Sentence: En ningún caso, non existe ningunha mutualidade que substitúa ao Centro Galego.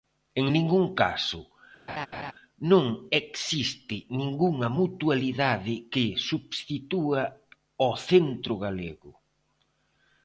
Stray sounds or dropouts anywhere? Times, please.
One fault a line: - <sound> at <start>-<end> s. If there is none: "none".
- laugh at 1.9-2.3 s